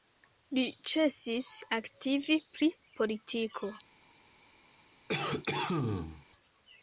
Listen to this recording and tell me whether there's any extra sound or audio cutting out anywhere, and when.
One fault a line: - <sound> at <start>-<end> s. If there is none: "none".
- cough at 5.1-6.3 s